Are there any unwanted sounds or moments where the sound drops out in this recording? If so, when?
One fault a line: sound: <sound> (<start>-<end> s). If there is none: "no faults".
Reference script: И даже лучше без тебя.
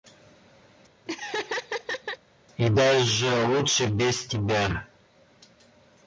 sound: laugh (1.1-2.2 s)